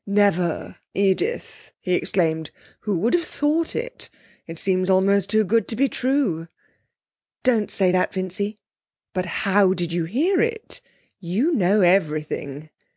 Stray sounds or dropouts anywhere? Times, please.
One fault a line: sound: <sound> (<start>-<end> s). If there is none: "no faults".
no faults